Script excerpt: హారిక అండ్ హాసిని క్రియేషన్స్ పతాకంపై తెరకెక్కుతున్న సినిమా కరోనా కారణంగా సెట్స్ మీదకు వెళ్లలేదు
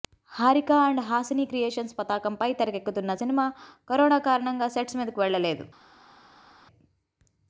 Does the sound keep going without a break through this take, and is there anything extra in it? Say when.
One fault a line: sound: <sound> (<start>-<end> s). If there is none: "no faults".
no faults